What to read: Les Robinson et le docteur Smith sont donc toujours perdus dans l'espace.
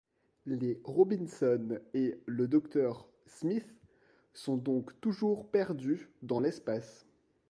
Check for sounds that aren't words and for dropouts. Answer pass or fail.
pass